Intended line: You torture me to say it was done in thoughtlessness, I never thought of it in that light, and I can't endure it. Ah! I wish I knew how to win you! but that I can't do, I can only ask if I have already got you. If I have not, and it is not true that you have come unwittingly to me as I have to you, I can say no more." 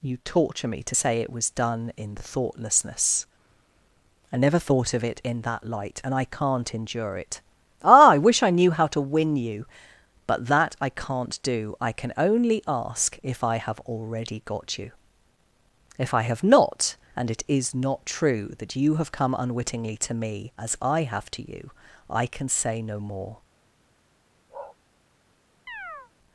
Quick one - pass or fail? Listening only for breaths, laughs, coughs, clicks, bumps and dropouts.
fail